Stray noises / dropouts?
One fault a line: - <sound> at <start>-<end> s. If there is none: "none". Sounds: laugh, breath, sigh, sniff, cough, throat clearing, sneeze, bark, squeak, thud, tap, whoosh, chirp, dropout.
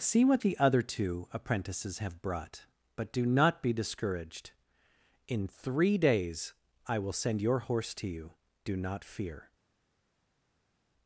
none